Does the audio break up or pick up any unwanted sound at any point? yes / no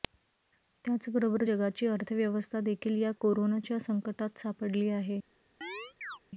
yes